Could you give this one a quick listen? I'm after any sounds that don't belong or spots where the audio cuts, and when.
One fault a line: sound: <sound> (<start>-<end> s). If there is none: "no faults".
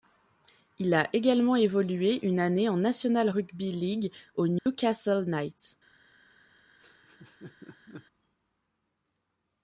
sound: dropout (4.6-4.7 s)
sound: laugh (6.8-8.1 s)